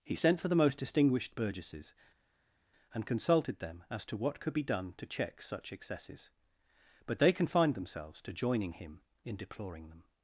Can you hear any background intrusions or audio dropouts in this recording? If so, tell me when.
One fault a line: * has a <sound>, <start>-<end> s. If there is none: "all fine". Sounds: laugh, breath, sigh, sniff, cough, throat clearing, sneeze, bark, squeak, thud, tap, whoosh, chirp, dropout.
all fine